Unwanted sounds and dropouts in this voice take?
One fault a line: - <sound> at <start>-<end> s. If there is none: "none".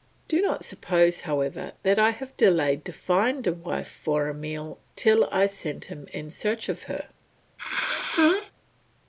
- sneeze at 7.6-8.5 s